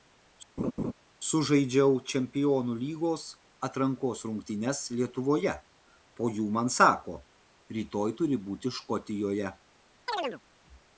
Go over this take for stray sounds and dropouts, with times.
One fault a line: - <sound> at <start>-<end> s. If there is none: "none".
- laugh at 0.6-0.9 s
- chirp at 10.1-10.4 s